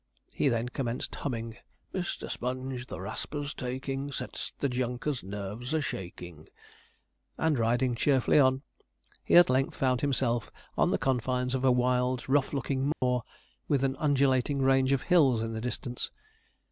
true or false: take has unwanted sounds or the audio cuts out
true